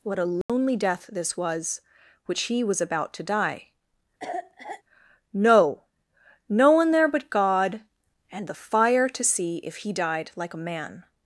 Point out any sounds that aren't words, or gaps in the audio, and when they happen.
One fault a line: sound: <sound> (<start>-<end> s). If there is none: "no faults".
sound: dropout (0.4-0.5 s)
sound: cough (4.2-4.8 s)